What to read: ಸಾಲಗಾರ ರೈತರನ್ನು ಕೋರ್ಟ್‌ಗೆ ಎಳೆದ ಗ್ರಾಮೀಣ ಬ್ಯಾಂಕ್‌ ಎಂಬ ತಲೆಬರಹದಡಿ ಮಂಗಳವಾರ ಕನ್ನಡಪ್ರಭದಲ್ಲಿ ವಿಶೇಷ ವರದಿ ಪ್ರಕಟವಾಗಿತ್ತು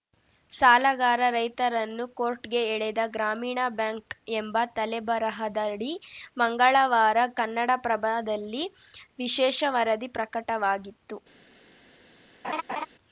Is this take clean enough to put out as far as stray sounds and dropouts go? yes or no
no